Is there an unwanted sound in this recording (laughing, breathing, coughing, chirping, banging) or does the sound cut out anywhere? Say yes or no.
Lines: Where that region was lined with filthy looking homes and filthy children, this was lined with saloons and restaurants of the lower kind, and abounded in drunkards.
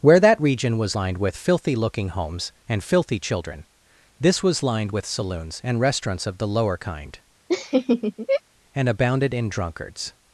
yes